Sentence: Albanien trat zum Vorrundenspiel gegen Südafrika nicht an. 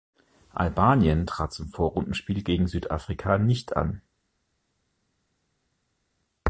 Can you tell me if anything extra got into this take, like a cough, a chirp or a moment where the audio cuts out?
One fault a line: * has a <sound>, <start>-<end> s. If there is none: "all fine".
all fine